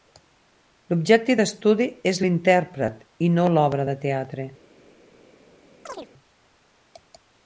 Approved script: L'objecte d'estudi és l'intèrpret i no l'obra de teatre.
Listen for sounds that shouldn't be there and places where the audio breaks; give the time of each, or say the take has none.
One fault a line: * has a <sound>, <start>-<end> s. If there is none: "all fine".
* has a chirp, 5.9-6.1 s